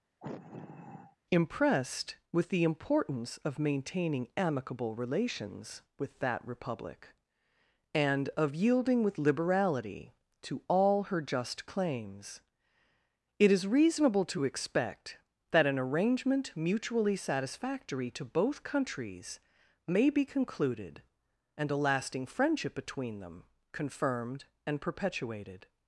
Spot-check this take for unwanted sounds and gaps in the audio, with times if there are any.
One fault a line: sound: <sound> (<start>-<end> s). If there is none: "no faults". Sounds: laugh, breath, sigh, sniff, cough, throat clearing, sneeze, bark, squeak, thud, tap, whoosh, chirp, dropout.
sound: sigh (0.2-1.2 s)